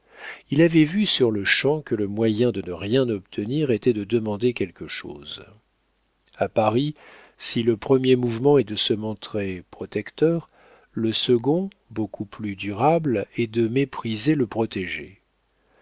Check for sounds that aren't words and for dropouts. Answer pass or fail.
pass